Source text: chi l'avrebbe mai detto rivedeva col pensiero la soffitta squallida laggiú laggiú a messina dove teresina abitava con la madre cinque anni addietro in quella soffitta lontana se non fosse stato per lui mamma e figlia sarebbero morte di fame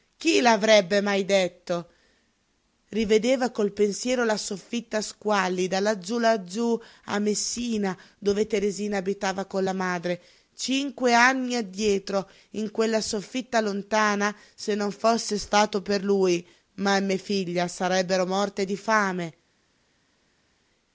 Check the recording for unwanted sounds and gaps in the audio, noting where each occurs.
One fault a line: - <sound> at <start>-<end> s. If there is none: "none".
none